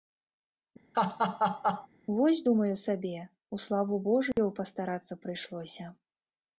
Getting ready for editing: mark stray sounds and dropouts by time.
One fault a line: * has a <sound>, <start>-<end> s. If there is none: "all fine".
* has a laugh, 0.9-1.9 s
* has a dropout, 4.3-4.4 s